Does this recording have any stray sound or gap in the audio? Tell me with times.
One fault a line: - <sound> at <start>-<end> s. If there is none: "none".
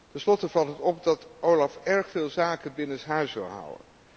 none